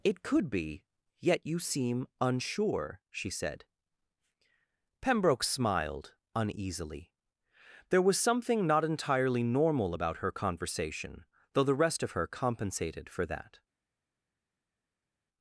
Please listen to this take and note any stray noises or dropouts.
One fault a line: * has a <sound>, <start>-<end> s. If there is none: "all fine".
all fine